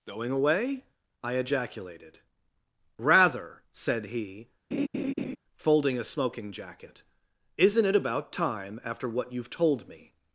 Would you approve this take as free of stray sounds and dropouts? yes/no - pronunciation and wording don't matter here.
no